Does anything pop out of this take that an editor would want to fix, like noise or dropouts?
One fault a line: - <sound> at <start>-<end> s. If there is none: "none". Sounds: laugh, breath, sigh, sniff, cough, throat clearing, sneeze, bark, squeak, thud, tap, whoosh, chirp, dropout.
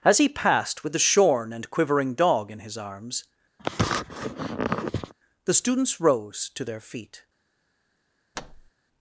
- sniff at 3.6-5.1 s
- thud at 8.3-8.7 s